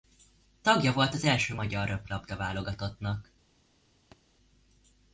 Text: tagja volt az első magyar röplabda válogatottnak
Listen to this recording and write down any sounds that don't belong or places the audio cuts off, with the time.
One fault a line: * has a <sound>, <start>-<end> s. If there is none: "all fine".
* has a thud, 4.1-4.2 s